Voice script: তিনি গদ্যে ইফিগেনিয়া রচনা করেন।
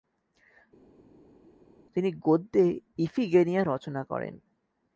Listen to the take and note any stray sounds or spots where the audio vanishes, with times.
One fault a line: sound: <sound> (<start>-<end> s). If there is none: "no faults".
no faults